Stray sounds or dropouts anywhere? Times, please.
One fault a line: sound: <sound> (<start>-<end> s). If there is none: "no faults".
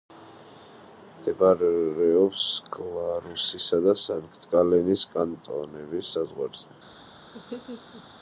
sound: laugh (7.3-8.1 s)